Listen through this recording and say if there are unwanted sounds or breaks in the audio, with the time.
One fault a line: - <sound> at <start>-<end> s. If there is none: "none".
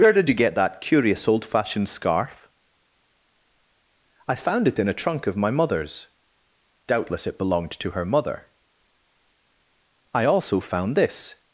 none